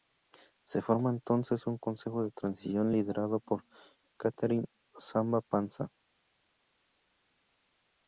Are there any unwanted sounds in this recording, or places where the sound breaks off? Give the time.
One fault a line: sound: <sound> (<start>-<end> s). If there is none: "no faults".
no faults